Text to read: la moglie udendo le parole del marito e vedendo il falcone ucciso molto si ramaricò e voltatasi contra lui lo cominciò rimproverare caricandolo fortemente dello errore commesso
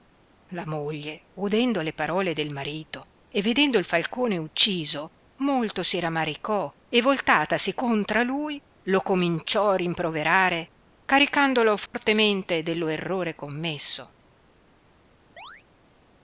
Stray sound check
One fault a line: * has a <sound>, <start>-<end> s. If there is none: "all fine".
* has a dropout, 11.9-11.9 s
* has a chirp, 15.4-15.6 s